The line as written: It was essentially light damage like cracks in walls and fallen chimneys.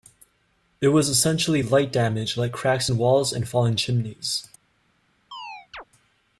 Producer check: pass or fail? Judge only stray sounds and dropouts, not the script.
fail